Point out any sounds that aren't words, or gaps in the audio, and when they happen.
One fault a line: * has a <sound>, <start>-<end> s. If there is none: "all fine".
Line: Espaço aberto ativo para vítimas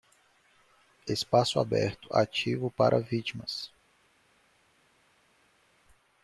all fine